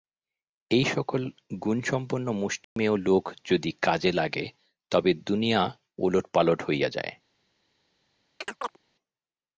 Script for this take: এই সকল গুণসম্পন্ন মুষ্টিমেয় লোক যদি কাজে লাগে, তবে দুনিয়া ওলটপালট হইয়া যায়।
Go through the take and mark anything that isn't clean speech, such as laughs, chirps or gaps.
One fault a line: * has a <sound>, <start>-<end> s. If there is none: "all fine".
* has a dropout, 2.6-2.8 s
* has a chirp, 8.4-8.8 s